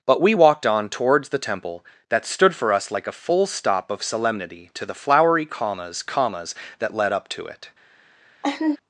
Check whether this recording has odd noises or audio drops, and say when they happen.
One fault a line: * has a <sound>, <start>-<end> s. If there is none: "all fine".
* has a laugh, 8.4-8.8 s